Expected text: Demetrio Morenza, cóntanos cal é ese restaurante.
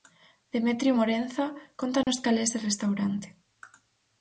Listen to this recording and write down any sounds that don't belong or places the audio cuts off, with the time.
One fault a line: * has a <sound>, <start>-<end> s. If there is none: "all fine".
* has a dropout, 2.0-2.1 s